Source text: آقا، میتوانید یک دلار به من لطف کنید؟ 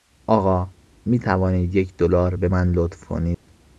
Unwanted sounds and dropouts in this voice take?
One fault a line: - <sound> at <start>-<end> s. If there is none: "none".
- dropout at 3.3-3.5 s